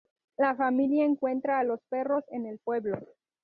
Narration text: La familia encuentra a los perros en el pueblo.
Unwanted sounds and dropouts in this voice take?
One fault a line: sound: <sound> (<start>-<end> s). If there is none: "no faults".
no faults